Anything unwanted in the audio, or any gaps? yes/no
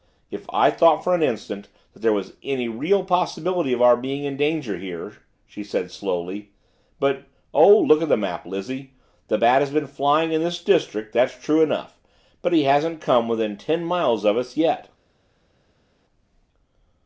no